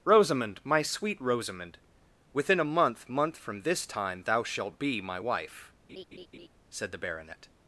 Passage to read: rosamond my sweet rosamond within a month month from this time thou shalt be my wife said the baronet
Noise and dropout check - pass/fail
fail